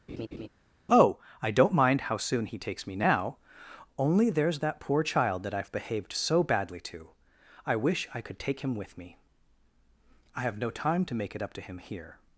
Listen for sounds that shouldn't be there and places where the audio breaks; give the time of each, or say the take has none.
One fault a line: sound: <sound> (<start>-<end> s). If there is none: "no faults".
sound: laugh (0.1-0.5 s)